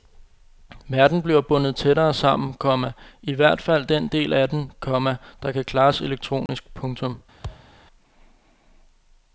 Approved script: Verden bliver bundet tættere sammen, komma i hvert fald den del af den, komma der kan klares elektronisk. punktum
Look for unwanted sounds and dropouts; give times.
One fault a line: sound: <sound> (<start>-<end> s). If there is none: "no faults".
sound: dropout (6.5-6.5 s)
sound: thud (7.4-7.7 s)